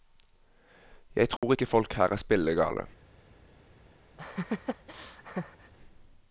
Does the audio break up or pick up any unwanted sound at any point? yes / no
yes